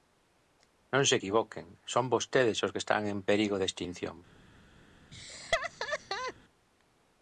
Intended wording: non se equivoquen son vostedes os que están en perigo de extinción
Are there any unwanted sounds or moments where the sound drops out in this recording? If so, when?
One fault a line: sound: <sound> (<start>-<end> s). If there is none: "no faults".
sound: laugh (5.1-6.3 s)